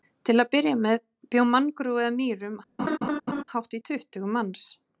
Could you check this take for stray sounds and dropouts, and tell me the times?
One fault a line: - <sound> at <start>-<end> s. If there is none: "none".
- laugh at 2.8-3.4 s